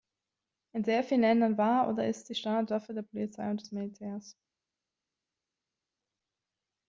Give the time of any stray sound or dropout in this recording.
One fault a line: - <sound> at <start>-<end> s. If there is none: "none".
none